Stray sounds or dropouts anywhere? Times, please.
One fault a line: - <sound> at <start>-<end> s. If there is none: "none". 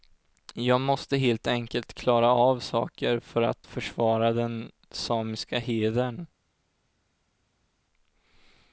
none